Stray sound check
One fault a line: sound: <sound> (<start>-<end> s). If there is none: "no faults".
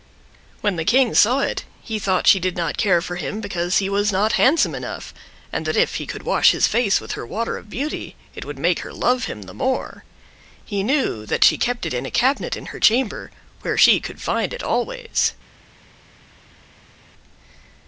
no faults